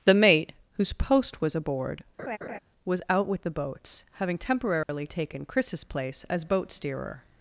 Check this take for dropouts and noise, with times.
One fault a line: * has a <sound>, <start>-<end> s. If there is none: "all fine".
* has a laugh, 2.2-2.6 s
* has a dropout, 4.8-4.9 s